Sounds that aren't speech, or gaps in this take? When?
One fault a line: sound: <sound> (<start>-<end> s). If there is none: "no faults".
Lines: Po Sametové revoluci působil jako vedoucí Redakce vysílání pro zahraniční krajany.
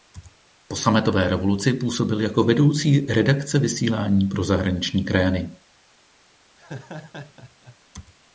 sound: laugh (6.6-7.8 s)